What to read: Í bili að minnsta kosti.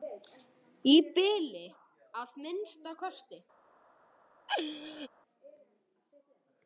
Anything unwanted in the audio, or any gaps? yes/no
yes